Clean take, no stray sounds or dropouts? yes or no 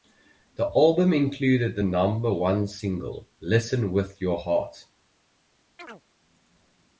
no